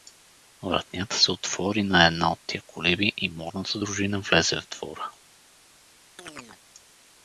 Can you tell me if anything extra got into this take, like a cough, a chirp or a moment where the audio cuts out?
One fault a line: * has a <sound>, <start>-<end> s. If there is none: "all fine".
* has a chirp, 6.2-6.6 s